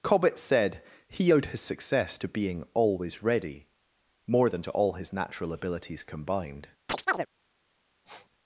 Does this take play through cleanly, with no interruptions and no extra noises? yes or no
no